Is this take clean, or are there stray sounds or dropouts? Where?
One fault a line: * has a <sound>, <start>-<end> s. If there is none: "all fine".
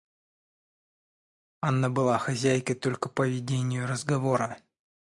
all fine